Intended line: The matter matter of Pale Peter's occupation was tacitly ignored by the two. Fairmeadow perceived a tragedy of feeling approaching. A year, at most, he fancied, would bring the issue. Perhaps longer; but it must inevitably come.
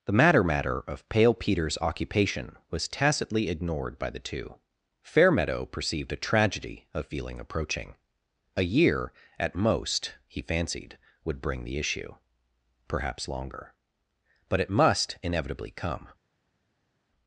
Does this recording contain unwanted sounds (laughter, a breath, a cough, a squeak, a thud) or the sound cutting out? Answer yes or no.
no